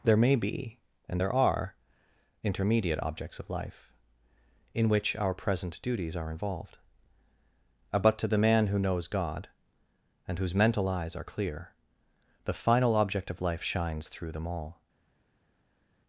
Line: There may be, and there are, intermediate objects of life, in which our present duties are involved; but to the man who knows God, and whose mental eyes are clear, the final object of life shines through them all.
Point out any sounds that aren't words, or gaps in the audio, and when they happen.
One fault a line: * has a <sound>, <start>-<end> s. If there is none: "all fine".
all fine